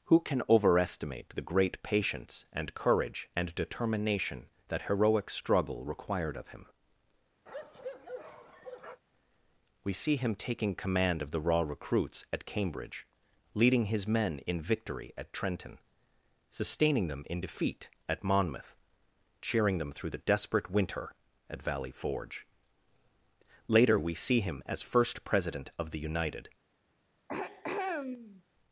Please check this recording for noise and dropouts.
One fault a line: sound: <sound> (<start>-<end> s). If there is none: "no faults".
sound: bark (7.5-9.0 s)
sound: throat clearing (27.3-28.4 s)